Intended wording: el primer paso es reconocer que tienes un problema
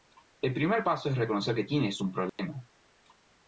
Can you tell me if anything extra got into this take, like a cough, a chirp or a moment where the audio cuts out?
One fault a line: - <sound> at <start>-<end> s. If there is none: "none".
- dropout at 2.3-2.4 s